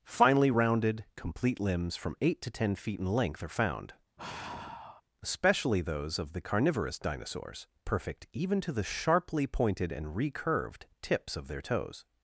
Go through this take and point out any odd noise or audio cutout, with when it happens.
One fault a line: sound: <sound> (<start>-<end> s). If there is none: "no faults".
sound: sigh (4.2-5.0 s)